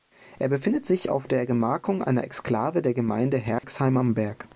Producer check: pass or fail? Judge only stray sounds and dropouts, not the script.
fail